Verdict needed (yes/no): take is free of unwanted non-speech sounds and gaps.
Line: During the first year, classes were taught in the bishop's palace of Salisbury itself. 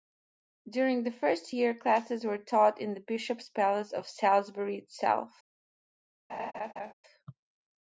no